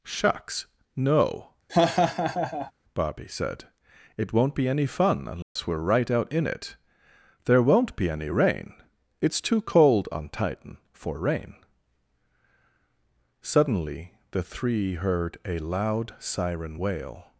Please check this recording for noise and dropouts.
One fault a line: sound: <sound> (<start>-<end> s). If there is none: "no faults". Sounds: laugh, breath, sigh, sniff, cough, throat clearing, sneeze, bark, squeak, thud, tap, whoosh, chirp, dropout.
sound: laugh (1.7-2.7 s)
sound: dropout (5.4-5.6 s)